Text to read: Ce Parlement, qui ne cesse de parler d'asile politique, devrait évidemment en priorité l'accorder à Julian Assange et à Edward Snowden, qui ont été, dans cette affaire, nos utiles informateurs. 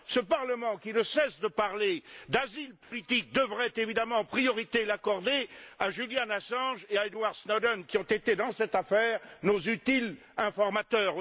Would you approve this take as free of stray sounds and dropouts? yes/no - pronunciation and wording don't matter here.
no